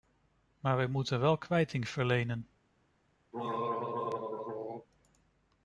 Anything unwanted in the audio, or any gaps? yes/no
yes